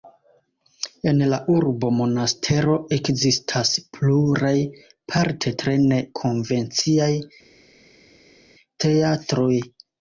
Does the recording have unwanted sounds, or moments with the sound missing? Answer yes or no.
no